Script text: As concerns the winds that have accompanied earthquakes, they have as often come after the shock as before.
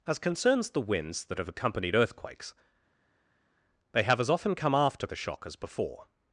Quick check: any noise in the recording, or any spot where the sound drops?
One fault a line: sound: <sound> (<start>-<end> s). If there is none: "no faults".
no faults